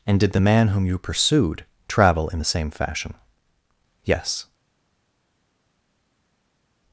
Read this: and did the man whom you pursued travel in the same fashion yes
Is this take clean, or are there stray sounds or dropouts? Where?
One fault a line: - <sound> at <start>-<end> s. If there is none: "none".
none